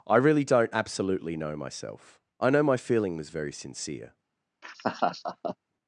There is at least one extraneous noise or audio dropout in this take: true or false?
true